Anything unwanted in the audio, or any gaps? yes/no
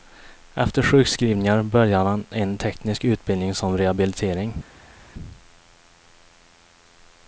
no